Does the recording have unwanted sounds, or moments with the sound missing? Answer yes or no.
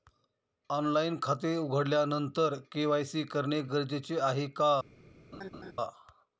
yes